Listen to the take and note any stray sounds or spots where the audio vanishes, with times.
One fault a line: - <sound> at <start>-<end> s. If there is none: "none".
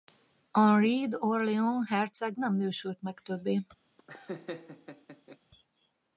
- laugh at 4.0-5.4 s